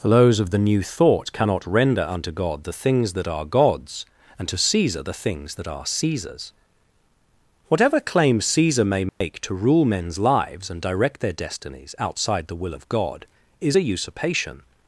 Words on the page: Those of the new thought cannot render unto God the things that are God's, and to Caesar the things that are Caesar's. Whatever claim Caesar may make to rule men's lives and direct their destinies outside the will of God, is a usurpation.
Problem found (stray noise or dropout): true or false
true